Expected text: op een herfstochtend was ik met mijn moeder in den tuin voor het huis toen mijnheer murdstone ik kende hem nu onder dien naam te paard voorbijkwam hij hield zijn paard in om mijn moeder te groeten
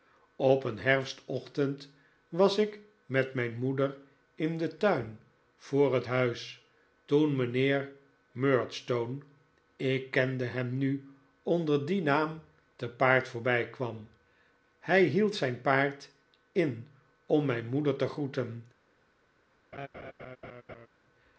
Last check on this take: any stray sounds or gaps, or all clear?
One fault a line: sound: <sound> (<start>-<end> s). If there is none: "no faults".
sound: laugh (19.7-20.9 s)